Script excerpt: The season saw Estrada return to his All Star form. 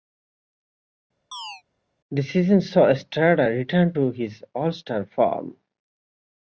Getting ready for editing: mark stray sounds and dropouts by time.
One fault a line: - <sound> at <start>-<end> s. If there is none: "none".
- chirp at 1.3-1.6 s